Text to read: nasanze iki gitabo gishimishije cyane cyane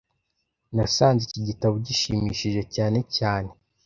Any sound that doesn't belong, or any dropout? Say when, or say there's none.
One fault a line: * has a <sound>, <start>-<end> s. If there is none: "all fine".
all fine